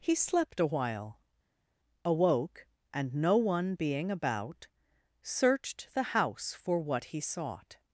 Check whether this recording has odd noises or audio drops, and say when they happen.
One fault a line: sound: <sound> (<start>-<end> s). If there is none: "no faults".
no faults